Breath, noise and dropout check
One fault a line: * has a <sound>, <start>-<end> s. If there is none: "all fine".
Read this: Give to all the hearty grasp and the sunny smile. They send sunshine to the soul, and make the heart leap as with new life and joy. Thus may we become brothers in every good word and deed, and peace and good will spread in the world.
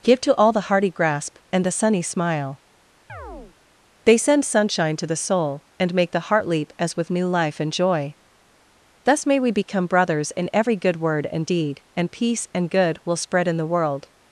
* has a chirp, 3.1-3.6 s